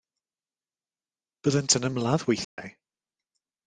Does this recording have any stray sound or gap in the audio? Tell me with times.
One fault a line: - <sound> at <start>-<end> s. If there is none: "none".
- dropout at 2.4-2.6 s